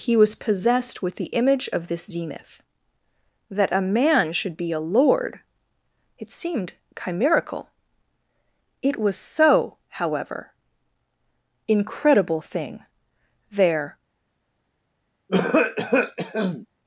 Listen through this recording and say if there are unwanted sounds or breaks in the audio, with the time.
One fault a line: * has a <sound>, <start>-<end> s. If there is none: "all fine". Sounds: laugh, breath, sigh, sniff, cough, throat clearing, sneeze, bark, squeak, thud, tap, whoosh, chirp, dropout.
* has a cough, 15.3-16.7 s